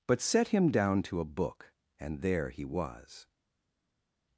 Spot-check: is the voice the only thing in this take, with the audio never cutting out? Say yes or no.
yes